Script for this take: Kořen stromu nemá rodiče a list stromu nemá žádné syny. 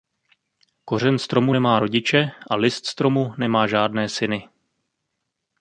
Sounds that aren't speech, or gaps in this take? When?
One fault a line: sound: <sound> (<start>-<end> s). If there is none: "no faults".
no faults